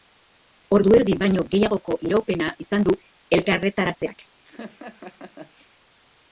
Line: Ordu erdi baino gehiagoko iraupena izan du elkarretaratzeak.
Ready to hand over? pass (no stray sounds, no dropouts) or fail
fail